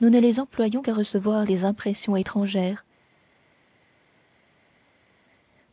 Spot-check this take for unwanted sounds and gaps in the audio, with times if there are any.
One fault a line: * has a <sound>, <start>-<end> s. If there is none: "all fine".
all fine